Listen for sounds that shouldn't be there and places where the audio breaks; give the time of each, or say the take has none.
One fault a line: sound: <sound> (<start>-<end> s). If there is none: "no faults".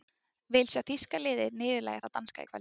no faults